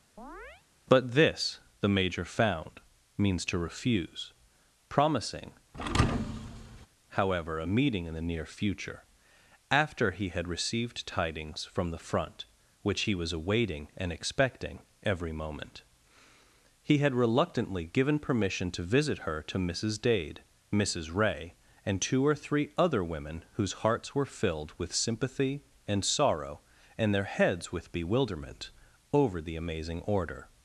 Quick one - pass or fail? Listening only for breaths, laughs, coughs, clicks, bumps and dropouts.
fail